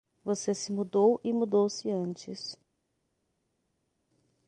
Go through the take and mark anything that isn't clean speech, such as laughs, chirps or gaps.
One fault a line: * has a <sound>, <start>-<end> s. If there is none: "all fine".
all fine